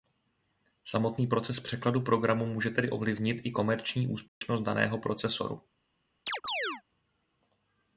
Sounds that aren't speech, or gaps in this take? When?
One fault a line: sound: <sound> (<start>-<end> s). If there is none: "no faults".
sound: dropout (4.3-4.4 s)
sound: chirp (6.3-6.8 s)